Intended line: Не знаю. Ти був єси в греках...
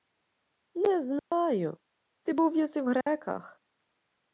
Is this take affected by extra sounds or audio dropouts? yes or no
yes